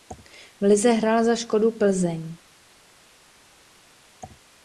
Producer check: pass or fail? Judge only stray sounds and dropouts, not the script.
pass